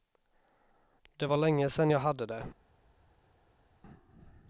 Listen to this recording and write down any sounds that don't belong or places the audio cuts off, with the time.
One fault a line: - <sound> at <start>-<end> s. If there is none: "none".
none